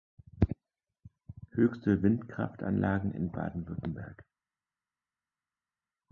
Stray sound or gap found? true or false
false